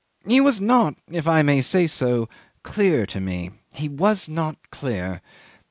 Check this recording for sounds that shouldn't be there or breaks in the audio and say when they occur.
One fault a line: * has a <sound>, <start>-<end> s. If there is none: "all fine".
all fine